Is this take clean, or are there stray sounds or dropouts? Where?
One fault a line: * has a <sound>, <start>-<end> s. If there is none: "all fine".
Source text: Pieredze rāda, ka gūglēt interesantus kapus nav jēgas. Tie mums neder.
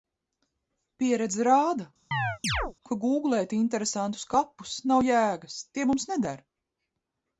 * has a chirp, 2.1-2.7 s